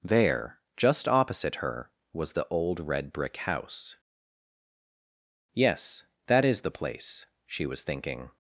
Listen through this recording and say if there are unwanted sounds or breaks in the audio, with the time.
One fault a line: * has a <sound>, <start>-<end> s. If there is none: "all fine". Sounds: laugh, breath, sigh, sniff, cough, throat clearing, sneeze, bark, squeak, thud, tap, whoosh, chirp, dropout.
all fine